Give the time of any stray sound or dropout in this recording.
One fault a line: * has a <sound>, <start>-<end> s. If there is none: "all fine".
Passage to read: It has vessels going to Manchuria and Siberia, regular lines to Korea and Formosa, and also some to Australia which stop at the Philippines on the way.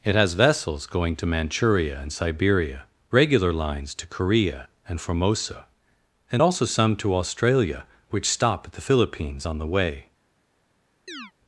* has a chirp, 11.1-11.3 s